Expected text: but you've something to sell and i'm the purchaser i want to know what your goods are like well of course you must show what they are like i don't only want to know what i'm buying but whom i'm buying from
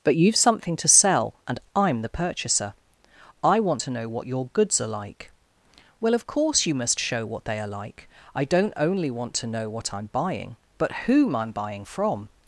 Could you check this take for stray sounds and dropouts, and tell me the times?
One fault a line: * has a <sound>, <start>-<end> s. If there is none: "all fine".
all fine